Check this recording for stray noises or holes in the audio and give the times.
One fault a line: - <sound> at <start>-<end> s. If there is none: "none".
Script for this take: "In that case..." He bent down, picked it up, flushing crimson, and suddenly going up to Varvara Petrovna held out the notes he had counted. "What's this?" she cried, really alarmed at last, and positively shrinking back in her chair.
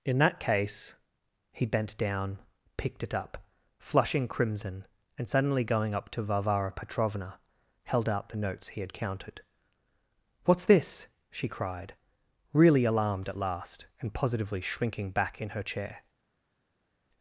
none